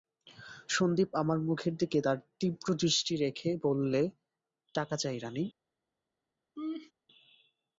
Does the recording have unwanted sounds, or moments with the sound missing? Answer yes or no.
yes